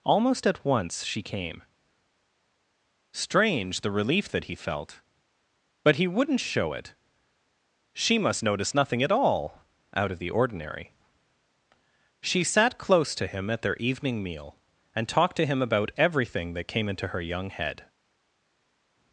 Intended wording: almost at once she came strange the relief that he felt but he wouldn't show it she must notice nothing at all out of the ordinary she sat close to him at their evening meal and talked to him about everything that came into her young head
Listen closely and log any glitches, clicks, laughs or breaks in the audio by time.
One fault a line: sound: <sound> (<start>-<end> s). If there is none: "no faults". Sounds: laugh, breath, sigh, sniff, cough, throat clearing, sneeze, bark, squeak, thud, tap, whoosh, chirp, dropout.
no faults